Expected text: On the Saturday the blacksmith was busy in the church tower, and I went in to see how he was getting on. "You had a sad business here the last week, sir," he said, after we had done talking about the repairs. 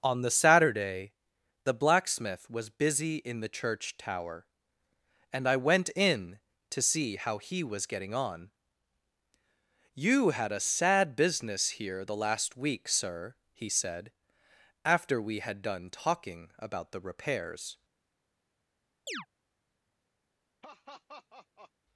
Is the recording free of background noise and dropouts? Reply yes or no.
no